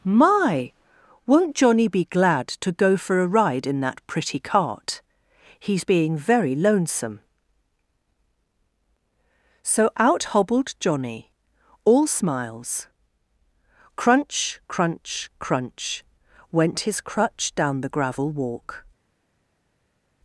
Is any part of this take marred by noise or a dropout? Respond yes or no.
no